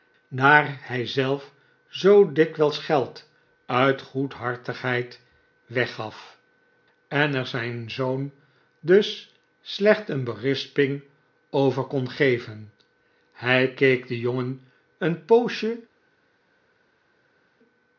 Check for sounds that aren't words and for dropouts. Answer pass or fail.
pass